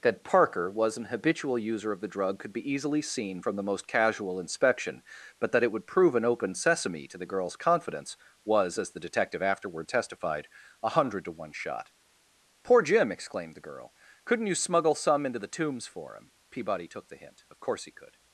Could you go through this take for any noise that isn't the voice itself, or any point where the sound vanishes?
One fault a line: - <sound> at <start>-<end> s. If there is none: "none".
none